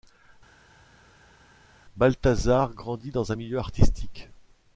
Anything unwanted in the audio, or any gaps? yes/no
no